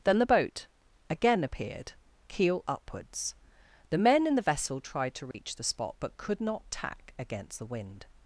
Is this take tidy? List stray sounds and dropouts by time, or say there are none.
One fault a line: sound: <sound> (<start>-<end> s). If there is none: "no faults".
sound: dropout (5.3-5.3 s)